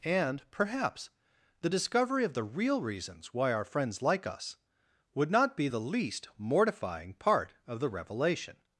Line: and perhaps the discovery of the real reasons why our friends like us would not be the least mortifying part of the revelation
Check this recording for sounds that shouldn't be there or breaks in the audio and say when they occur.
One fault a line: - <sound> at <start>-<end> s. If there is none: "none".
none